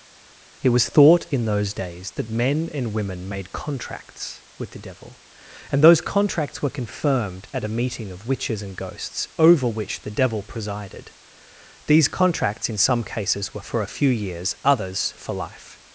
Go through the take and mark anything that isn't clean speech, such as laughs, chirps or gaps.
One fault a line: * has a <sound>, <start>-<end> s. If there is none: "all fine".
all fine